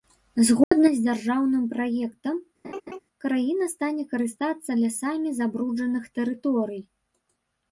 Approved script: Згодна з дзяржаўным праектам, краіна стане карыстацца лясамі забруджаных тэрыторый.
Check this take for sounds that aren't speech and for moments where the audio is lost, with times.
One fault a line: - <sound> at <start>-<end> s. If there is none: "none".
- dropout at 0.6-0.7 s
- laugh at 2.6-3.0 s